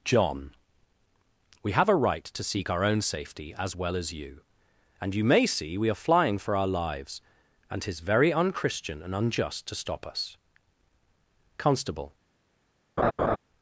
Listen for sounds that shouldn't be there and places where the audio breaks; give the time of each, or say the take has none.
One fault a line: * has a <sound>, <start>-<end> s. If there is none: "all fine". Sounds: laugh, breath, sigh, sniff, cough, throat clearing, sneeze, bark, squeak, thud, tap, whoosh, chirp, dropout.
* has a laugh, 13.0-13.4 s